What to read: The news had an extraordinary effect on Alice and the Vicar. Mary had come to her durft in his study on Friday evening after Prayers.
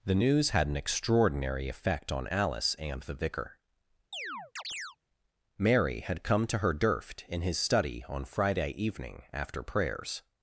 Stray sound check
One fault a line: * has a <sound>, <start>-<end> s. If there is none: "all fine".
* has a chirp, 4.1-5.0 s